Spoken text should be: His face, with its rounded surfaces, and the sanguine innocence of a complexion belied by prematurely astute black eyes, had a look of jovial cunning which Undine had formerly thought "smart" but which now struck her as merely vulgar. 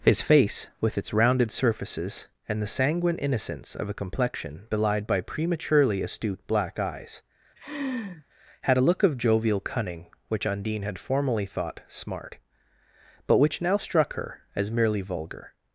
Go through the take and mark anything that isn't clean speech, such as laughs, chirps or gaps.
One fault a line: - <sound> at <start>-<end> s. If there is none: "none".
- laugh at 7.6-8.2 s